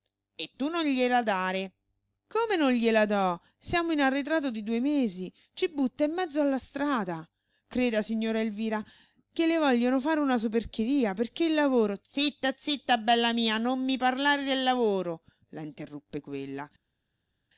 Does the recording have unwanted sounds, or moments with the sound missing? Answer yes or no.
no